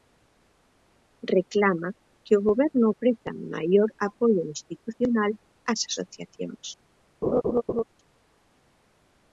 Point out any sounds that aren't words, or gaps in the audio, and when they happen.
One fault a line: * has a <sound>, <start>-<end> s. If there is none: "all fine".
* has a laugh, 7.2-7.8 s